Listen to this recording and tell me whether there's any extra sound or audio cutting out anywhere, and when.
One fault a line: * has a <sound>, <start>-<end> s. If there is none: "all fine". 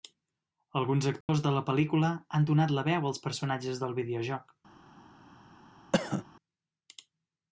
* has a dropout, 1.2-1.3 s
* has a cough, 5.9-6.3 s